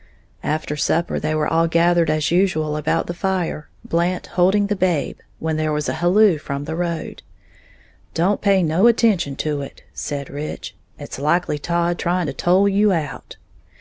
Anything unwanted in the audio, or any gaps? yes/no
no